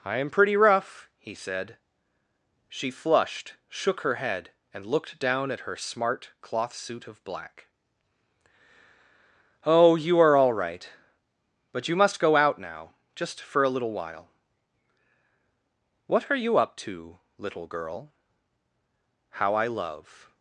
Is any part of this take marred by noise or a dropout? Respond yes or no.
no